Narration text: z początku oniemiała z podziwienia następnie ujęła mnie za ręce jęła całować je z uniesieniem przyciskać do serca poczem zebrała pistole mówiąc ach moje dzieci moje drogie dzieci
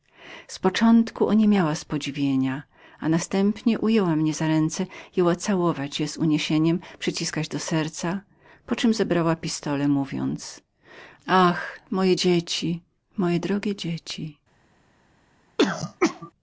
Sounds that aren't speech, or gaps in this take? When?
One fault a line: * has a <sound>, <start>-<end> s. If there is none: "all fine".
* has a throat clearing, 15.6-16.3 s